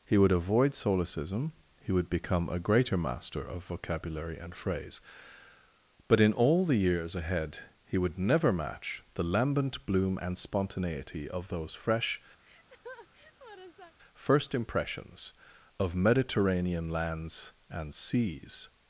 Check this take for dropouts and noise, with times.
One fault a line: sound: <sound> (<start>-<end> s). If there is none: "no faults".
sound: laugh (12.4-13.9 s)